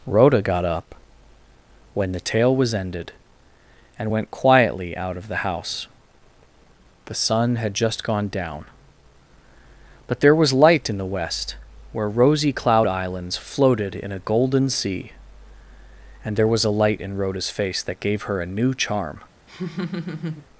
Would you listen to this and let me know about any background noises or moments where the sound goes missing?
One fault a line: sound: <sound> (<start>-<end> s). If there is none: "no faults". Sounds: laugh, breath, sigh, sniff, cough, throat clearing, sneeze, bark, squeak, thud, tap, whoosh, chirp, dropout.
sound: laugh (19.5-20.5 s)